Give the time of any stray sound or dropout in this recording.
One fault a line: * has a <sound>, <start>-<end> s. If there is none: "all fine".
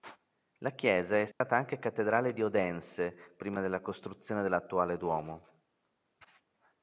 * has a dropout, 1.3-1.4 s